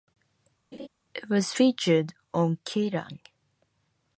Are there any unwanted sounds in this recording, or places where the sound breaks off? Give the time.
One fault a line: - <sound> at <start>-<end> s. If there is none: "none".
- laugh at 0.7-0.9 s